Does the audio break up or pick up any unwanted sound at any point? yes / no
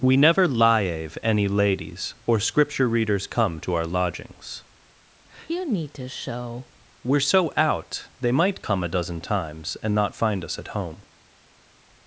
no